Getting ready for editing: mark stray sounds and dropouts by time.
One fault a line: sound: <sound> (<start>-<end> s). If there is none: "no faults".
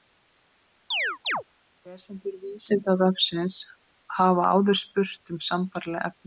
sound: chirp (0.9-1.4 s)